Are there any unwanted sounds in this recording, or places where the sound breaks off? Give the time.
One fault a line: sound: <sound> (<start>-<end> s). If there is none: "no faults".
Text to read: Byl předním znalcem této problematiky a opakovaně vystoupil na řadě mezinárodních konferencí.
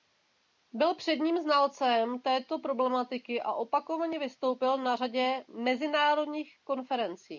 no faults